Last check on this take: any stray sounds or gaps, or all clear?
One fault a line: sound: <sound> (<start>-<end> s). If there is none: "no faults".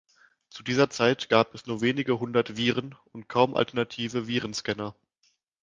no faults